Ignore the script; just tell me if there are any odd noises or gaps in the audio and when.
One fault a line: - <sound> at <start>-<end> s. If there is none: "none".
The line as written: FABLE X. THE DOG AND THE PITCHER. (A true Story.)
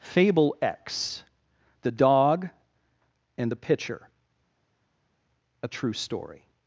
none